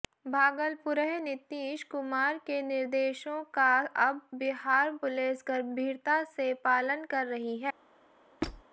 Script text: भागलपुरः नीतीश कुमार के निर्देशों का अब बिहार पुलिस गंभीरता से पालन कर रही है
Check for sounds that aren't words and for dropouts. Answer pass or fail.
fail